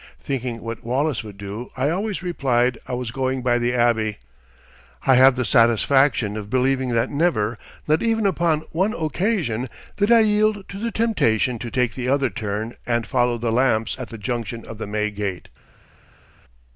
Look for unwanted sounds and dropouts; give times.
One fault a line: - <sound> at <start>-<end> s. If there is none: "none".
none